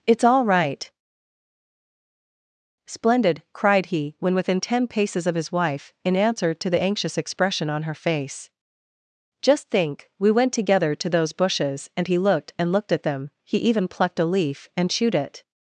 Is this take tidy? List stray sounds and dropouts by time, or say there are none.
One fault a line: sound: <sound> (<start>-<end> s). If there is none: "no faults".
no faults